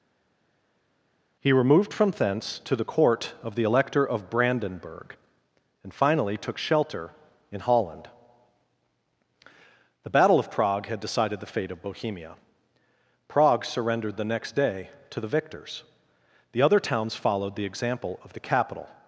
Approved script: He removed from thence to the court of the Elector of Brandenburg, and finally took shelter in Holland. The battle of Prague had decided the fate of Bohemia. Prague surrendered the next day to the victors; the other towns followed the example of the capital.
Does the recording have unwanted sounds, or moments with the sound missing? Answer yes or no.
no